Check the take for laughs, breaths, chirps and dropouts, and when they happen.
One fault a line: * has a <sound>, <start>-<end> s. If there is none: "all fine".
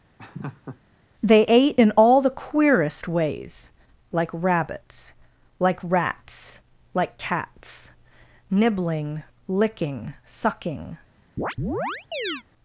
* has a laugh, 0.2-0.8 s
* has a chirp, 11.4-12.4 s